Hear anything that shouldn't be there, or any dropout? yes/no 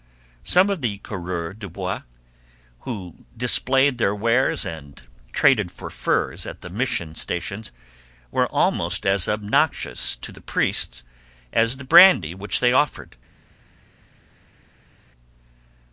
no